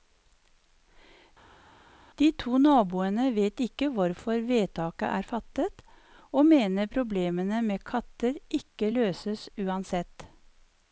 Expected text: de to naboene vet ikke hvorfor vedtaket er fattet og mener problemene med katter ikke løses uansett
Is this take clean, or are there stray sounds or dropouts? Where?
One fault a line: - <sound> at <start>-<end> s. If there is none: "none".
none